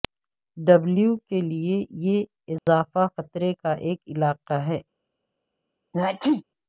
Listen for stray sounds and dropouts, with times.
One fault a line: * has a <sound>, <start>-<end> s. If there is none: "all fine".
* has a dropout, 2.6-2.7 s
* has a sneeze, 5.9-6.4 s